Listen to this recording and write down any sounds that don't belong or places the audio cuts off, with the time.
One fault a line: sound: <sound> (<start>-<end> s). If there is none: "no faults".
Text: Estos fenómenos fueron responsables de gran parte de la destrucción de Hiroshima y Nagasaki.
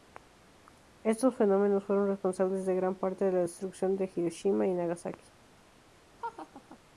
sound: laugh (6.2-6.8 s)